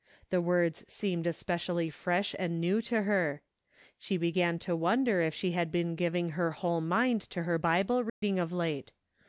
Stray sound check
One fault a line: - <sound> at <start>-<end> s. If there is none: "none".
- dropout at 8.1-8.2 s